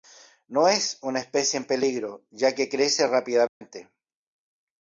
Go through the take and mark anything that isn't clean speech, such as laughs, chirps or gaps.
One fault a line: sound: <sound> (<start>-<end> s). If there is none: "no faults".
sound: dropout (3.5-3.6 s)